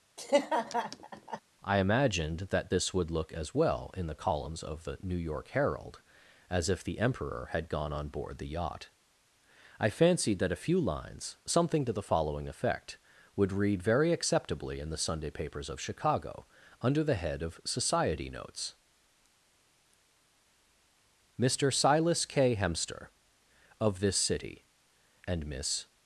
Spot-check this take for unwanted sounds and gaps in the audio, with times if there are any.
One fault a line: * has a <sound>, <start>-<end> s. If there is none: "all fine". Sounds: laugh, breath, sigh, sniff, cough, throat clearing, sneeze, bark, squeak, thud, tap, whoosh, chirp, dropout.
* has a laugh, 0.2-1.4 s